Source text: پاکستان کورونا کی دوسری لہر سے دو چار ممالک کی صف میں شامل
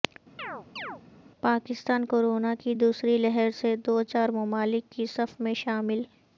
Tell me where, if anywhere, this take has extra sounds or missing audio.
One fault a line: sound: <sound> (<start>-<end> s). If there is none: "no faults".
sound: chirp (0.4-1.0 s)